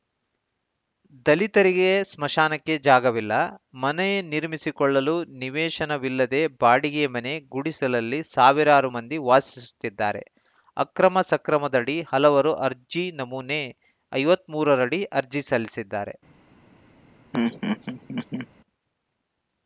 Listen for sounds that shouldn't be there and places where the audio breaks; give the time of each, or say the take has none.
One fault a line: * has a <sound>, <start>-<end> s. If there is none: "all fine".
* has a laugh, 17.3-18.5 s